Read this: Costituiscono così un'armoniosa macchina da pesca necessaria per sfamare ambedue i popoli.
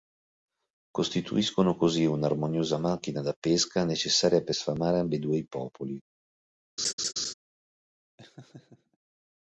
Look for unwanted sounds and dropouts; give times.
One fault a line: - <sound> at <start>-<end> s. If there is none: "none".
- laugh at 6.8-7.3 s
- laugh at 8.2-9.0 s